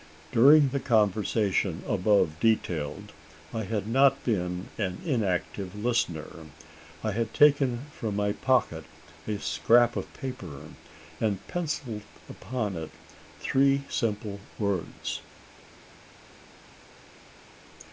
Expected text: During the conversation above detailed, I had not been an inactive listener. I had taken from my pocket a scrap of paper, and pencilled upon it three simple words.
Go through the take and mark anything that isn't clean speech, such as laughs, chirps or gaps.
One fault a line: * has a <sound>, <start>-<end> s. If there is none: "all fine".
all fine